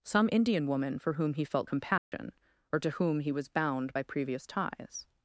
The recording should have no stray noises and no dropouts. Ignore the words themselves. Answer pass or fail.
fail